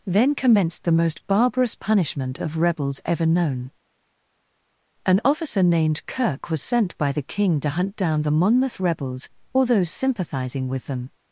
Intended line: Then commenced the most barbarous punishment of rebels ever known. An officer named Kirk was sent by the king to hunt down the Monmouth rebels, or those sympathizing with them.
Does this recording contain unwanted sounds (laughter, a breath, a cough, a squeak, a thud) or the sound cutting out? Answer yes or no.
no